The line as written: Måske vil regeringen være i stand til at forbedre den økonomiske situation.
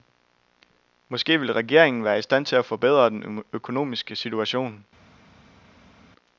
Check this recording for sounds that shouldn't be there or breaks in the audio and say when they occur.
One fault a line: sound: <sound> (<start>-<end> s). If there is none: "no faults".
no faults